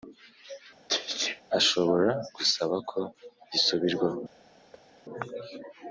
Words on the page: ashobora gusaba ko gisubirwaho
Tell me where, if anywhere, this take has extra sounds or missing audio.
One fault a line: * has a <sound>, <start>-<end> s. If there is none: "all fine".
* has a sneeze, 0.9-1.4 s
* has a thud, 4.7-4.9 s